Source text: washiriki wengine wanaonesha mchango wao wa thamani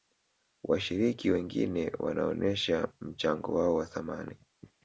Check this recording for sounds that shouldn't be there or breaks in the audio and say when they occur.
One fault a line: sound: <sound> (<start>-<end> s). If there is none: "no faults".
no faults